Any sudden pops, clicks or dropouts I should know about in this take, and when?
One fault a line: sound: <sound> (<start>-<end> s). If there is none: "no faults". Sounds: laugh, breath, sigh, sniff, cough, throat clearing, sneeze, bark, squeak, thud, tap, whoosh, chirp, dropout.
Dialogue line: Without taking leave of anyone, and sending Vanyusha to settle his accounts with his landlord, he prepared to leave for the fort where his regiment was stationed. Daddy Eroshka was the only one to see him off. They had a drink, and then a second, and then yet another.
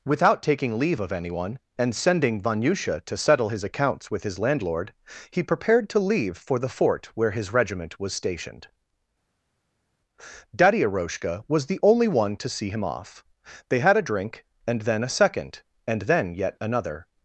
no faults